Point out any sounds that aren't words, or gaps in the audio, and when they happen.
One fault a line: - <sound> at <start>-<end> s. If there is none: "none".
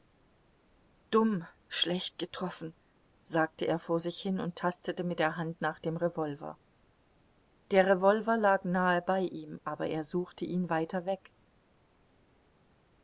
none